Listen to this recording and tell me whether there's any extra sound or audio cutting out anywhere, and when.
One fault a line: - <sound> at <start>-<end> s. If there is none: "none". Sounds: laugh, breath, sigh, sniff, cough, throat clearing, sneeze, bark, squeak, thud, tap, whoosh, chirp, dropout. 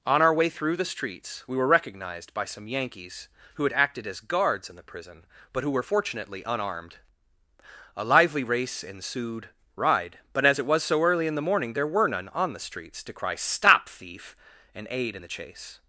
none